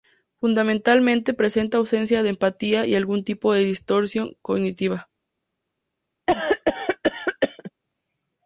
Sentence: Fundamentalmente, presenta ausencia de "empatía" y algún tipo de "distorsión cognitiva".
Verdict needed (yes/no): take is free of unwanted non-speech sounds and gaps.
no